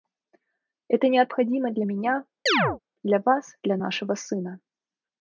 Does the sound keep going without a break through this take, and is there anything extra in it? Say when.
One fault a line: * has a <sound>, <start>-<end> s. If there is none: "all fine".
* has a chirp, 2.5-2.8 s